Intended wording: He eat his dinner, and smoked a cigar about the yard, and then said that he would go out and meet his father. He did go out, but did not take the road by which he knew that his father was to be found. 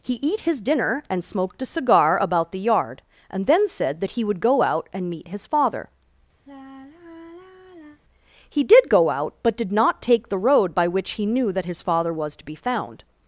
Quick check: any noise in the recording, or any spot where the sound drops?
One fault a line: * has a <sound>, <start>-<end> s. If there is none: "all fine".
* has a sigh, 6.5-8.0 s